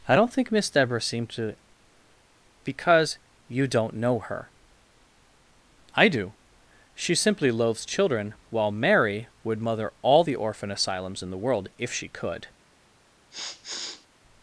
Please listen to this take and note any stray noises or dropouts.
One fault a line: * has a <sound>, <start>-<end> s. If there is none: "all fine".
* has a sniff, 13.3-14.1 s